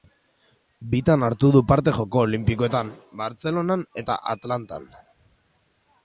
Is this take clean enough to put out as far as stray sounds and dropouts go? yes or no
yes